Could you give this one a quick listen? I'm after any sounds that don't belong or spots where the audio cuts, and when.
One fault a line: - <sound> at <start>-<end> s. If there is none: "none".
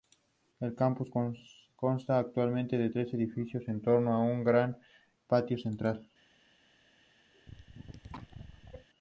- cough at 7.3-8.9 s